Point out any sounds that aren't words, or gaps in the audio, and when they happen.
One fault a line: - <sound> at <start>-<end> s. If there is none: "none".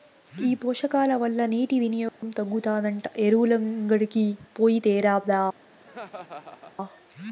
- dropout at 2.1-2.2 s
- laugh at 5.8-6.7 s